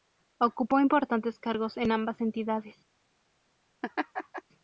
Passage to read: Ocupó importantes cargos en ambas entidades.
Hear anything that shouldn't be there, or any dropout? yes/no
yes